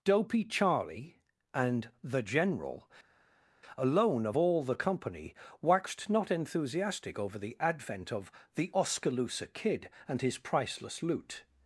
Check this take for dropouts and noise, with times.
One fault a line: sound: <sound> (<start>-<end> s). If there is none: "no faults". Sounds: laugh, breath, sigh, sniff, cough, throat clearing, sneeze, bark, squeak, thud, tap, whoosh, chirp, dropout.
no faults